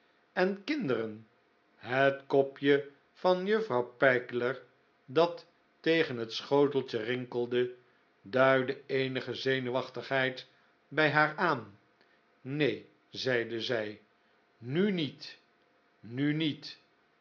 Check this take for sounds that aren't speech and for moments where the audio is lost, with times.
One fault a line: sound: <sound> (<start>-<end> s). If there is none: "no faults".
no faults